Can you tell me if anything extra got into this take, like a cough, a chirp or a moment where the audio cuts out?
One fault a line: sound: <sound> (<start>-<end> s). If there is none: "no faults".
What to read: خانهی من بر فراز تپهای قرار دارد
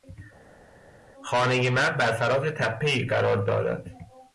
no faults